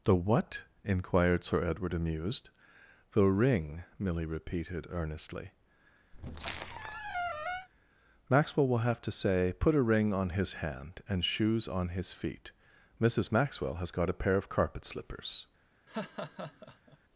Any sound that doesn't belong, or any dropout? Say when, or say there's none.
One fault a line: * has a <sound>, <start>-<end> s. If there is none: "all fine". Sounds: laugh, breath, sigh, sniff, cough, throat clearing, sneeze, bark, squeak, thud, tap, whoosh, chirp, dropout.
* has a squeak, 6.1-7.7 s
* has a laugh, 15.9-17.0 s